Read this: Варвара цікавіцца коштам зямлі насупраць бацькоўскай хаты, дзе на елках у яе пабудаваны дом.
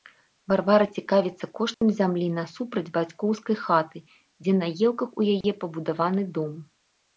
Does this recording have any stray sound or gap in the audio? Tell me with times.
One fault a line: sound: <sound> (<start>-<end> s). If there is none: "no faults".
sound: dropout (1.7-1.8 s)
sound: dropout (5.4-5.4 s)